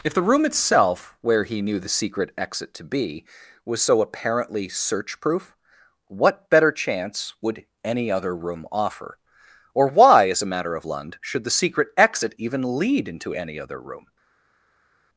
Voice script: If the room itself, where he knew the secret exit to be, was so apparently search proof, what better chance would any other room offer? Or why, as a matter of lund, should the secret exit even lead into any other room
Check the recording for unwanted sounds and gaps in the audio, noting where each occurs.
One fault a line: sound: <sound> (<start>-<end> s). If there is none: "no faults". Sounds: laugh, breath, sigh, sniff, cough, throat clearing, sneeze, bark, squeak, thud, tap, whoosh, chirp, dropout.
no faults